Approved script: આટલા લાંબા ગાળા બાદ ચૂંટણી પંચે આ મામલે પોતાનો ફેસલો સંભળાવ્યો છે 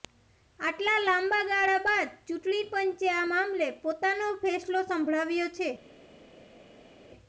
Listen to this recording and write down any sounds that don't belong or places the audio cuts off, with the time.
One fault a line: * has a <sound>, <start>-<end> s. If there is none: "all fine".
all fine